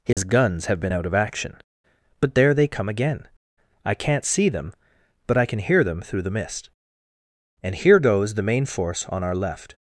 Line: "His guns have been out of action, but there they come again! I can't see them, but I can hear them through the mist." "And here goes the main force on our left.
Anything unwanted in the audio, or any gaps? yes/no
yes